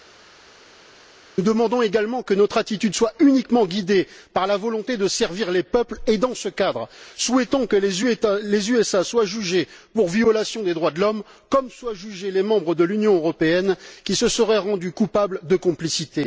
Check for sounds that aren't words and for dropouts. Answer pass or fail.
pass